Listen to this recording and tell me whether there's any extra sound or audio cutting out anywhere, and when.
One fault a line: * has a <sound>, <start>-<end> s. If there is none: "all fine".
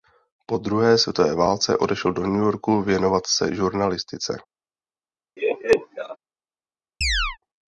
* has a laugh, 5.4-6.2 s
* has a chirp, 7.0-7.4 s